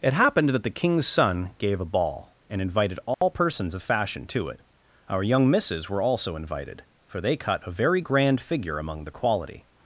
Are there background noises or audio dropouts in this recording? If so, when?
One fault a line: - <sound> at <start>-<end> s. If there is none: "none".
- dropout at 3.1-3.2 s